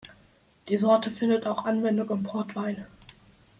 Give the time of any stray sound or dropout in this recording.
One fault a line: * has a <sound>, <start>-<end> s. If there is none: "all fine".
all fine